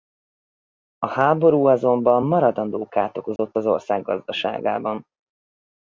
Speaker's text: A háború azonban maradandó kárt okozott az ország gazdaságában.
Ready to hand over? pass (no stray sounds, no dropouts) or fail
fail